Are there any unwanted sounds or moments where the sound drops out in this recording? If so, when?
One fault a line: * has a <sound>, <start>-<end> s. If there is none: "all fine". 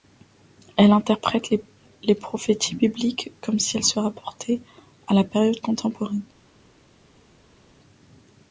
all fine